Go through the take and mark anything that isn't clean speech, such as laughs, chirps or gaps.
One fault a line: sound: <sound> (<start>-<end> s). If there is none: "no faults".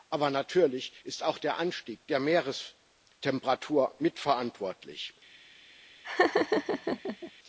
sound: laugh (6.0-7.3 s)